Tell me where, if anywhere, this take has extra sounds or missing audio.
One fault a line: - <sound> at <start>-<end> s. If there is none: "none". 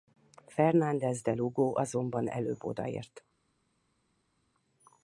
none